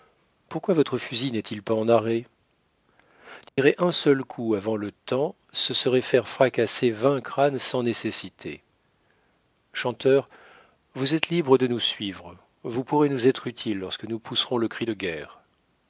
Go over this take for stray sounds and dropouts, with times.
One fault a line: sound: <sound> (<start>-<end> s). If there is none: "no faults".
sound: dropout (3.5-3.6 s)